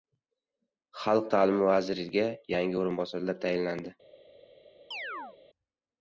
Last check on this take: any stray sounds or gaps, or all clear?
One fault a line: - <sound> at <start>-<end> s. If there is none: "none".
- chirp at 4.9-5.4 s